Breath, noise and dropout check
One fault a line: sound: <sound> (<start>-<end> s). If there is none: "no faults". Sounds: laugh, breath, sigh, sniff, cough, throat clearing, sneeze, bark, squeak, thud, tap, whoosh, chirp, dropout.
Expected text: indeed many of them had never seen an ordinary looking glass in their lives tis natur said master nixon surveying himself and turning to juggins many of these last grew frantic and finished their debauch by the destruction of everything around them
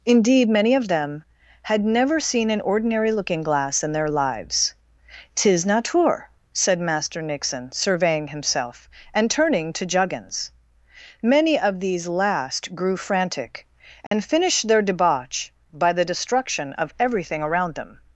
sound: dropout (14.1-14.1 s)